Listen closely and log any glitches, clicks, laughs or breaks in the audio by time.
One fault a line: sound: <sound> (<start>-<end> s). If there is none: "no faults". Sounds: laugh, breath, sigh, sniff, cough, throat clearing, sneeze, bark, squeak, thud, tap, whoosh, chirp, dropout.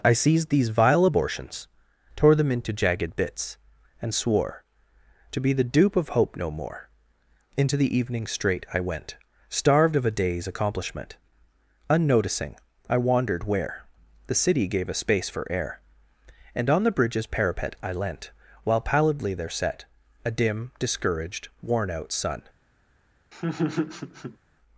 sound: laugh (23.3-24.4 s)